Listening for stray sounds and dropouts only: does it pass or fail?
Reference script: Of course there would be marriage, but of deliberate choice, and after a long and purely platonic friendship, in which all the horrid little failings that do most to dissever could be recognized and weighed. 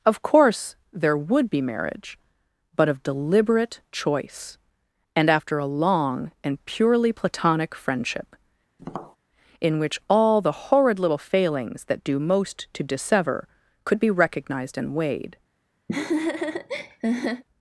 fail